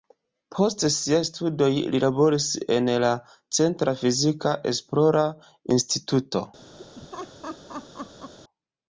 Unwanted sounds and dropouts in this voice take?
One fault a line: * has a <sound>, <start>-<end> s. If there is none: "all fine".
* has a laugh, 6.8-8.3 s